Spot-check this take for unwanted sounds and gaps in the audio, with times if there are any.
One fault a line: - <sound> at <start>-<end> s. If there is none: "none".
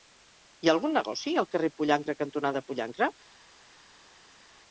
none